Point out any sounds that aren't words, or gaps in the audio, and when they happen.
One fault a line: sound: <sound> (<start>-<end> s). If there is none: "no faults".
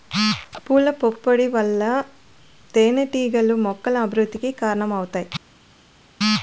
no faults